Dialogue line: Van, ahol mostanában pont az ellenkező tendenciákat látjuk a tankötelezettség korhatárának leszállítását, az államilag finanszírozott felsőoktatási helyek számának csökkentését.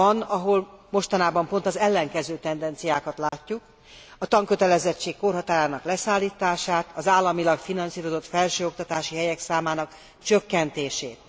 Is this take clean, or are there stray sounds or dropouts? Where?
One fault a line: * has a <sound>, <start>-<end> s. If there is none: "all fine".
* has a dropout, 3.3-3.3 s